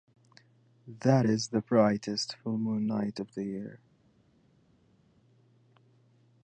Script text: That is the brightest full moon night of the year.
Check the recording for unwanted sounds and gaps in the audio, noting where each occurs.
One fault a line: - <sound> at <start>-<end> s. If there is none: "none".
none